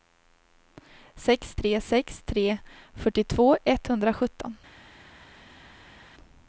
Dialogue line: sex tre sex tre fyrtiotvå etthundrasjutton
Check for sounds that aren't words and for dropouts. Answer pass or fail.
pass